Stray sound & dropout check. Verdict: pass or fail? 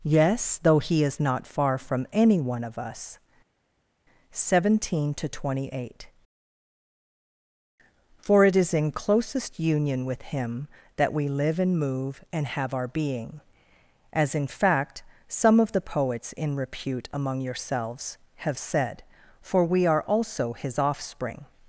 pass